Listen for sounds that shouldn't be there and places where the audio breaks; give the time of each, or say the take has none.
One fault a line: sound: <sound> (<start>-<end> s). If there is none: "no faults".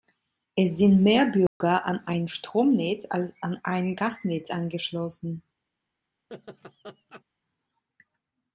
sound: dropout (1.5-1.6 s)
sound: laugh (6.3-7.2 s)